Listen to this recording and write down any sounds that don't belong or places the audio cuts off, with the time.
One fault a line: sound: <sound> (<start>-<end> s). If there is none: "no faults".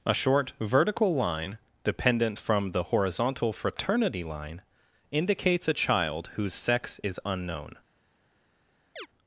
sound: chirp (9.0-9.1 s)